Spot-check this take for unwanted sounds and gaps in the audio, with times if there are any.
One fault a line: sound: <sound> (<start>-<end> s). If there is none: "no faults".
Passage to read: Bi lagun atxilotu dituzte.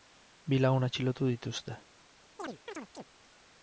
sound: chirp (2.4-3.0 s)